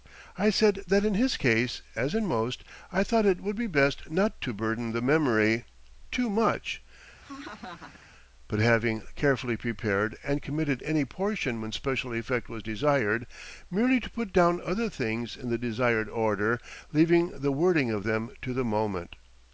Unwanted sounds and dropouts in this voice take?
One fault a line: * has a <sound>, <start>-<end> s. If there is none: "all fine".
* has a laugh, 7.2-8.1 s